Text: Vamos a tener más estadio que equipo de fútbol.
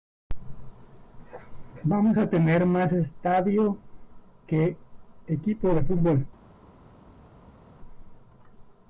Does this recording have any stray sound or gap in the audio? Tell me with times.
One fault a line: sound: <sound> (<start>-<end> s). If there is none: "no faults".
no faults